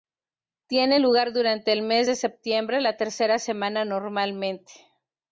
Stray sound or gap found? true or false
false